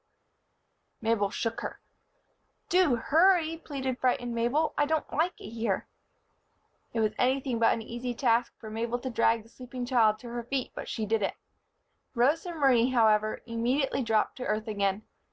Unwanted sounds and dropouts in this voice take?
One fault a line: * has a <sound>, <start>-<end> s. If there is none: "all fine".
all fine